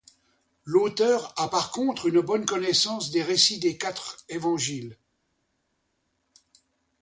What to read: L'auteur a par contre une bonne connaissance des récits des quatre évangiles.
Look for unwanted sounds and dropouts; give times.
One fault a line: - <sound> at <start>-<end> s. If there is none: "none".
none